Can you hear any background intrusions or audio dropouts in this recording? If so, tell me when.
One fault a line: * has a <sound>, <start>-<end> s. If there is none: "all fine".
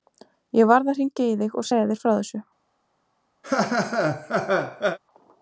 * has a laugh, 3.4-5.0 s